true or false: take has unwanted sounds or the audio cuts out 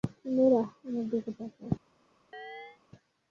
true